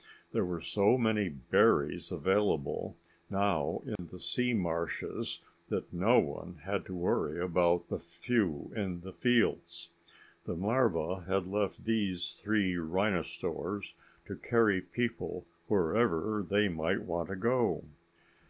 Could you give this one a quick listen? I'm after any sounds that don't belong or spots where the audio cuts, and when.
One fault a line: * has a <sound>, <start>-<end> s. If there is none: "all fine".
* has a dropout, 4.0-4.0 s